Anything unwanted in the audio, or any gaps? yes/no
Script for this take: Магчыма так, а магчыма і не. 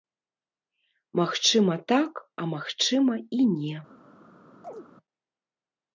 yes